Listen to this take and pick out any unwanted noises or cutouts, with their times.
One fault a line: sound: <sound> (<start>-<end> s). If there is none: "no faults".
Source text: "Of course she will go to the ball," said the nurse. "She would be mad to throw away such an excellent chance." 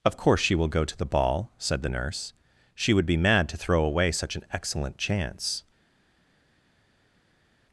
no faults